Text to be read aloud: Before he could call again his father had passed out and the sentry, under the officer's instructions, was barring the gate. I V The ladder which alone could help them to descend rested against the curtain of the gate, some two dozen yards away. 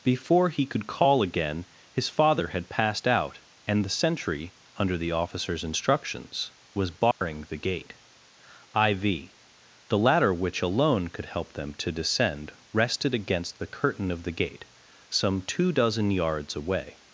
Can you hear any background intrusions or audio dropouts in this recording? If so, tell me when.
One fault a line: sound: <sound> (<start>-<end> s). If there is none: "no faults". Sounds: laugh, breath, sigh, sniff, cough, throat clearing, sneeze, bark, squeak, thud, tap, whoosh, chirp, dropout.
sound: dropout (7.1-7.2 s)